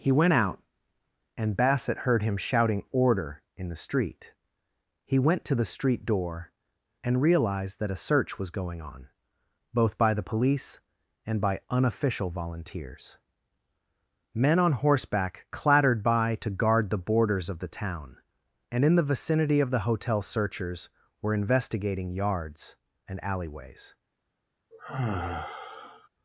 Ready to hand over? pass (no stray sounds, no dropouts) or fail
fail